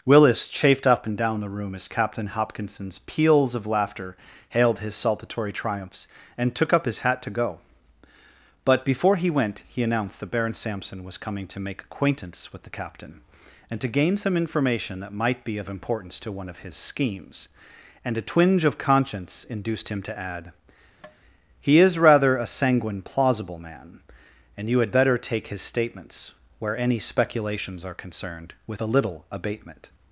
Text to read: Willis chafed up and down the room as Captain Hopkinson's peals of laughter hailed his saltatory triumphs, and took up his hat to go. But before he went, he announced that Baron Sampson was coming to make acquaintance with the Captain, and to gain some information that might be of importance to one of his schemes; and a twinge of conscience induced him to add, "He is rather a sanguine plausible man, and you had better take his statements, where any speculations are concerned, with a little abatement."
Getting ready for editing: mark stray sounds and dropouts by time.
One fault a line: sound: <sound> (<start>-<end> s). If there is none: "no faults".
sound: tap (21.0-21.2 s)